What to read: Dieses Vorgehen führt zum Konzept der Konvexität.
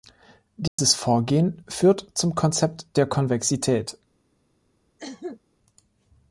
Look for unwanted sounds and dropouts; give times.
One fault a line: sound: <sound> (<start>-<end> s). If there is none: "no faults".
sound: dropout (0.7-0.8 s)
sound: cough (5.0-5.4 s)